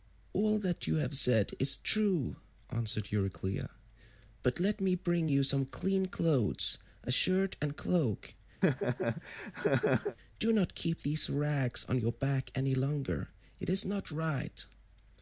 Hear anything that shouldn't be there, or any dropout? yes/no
yes